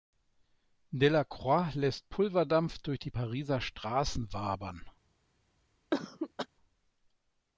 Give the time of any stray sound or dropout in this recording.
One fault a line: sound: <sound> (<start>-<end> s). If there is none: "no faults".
sound: cough (5.9-6.5 s)